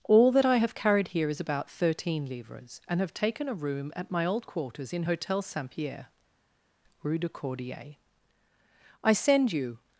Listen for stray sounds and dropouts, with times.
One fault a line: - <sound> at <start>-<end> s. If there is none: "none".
none